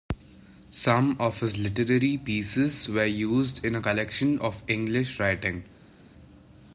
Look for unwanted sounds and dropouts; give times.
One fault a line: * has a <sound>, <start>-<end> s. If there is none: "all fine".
all fine